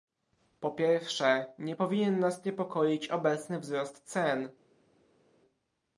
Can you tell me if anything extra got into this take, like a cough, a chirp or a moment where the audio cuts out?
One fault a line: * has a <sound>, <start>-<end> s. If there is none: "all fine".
all fine